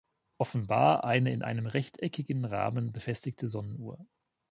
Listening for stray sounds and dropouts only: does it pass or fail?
pass